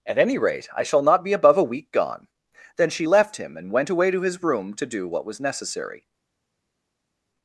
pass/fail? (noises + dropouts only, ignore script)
pass